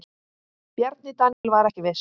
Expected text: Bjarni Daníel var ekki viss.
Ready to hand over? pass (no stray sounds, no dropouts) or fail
fail